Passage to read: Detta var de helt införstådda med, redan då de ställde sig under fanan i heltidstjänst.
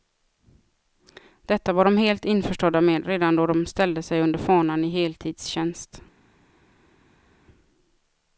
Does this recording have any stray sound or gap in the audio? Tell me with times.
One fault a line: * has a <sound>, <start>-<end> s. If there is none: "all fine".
all fine